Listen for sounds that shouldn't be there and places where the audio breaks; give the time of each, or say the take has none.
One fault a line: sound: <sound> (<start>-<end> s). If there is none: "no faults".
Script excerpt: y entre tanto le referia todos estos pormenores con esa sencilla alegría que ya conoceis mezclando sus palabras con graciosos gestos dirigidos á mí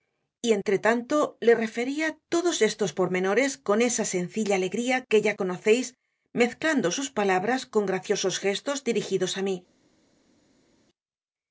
no faults